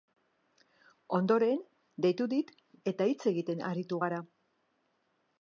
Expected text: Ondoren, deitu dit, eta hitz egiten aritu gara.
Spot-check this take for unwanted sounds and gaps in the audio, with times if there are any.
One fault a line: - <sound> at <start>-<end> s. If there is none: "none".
none